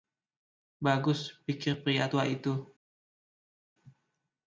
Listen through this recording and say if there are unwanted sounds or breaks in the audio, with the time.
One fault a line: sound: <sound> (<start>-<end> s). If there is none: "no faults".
no faults